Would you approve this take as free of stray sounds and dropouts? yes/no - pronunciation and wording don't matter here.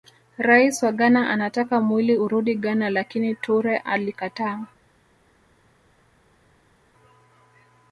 yes